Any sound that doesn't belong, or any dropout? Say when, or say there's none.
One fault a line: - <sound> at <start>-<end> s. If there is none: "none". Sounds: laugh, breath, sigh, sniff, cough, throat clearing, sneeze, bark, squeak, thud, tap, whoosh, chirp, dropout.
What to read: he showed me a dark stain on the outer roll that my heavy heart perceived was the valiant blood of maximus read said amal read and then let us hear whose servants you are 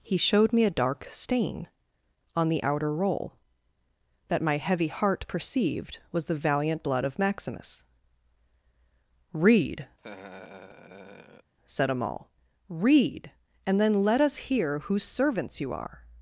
- laugh at 10.0-11.5 s